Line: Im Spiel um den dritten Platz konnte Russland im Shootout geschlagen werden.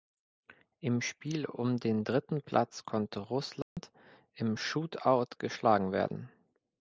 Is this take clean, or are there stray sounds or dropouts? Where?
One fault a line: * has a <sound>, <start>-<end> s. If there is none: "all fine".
* has a dropout, 3.6-3.8 s